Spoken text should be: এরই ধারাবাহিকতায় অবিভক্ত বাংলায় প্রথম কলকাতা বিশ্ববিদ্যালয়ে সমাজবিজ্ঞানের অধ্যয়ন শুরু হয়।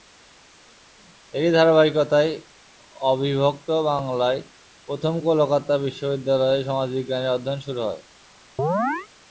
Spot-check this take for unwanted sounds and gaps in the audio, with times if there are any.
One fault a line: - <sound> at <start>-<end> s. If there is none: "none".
- chirp at 8.6-9.1 s